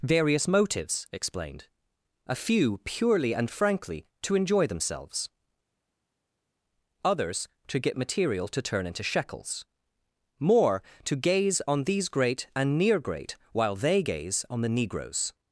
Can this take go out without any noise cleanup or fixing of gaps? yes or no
yes